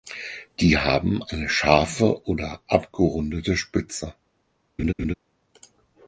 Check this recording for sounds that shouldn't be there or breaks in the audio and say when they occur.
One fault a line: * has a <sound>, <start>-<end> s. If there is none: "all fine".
* has a laugh, 4.8-5.1 s